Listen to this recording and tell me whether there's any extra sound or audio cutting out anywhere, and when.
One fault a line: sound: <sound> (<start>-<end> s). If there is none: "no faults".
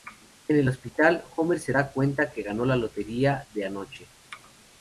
no faults